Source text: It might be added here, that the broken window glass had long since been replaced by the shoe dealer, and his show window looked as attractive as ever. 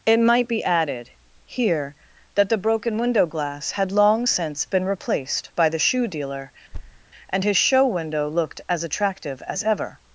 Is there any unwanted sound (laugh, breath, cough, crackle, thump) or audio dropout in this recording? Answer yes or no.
yes